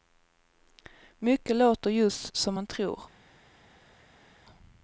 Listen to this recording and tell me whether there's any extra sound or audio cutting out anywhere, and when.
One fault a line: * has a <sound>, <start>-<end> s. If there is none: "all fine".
all fine